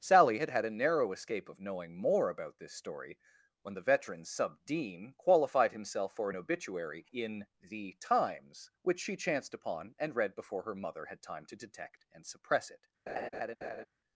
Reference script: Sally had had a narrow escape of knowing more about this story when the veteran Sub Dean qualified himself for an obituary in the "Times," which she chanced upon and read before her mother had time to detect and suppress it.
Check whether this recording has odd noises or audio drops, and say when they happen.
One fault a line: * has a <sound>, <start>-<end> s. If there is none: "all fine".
* has a laugh, 13.1-13.9 s